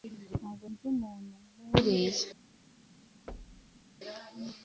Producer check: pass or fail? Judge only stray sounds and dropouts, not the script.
fail